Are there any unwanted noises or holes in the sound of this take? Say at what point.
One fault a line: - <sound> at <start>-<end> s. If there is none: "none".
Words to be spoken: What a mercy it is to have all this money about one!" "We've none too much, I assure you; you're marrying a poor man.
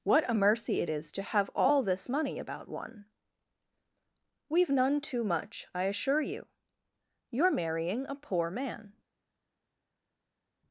none